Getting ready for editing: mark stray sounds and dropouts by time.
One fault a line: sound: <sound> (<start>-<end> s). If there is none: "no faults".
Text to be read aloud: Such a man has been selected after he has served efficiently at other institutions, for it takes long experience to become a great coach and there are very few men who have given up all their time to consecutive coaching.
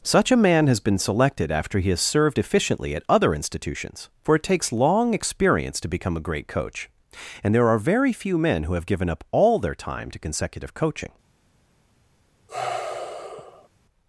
sound: sigh (12.5-13.7 s)